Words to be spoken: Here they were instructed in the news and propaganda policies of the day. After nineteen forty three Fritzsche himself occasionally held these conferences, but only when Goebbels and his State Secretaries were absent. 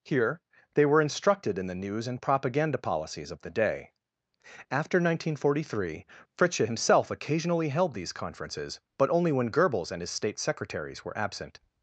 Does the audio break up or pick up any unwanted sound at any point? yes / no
no